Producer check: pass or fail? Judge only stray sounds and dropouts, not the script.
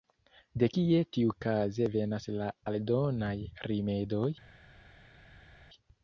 pass